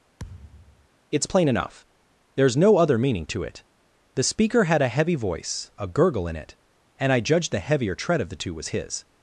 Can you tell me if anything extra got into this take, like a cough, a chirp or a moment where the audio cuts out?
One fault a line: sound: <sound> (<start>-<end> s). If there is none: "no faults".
sound: thud (0.2-0.9 s)